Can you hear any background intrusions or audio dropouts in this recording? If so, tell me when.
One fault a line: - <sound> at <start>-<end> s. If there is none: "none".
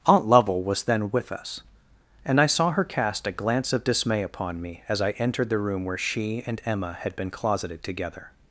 none